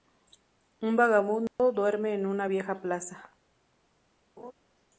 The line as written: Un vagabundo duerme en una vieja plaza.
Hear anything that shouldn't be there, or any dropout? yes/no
yes